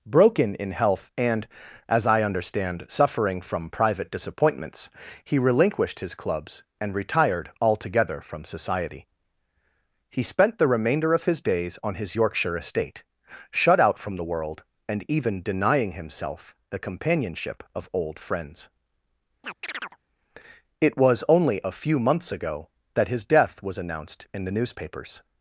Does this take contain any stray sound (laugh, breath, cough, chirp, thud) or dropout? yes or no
yes